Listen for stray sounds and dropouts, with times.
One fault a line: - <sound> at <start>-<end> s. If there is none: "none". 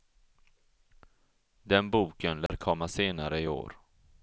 - dropout at 2.5-2.5 s